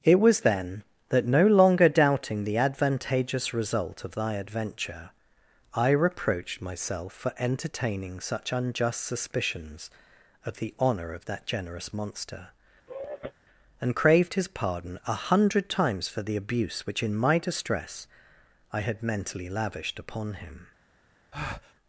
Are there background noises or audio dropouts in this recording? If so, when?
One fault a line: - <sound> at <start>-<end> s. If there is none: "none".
- sigh at 12.9-13.3 s
- breath at 21.3-21.7 s